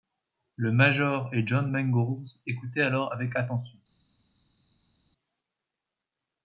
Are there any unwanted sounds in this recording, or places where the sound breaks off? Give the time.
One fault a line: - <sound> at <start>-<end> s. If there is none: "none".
none